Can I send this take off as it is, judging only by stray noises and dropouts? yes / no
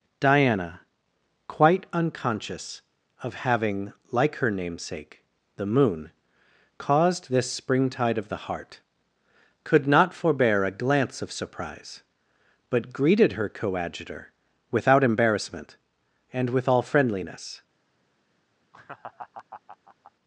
no